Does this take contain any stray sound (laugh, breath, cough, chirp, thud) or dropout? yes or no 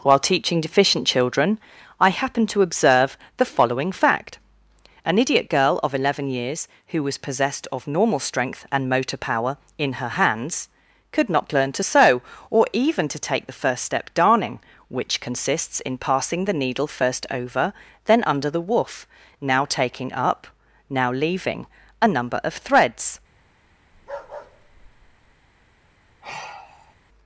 yes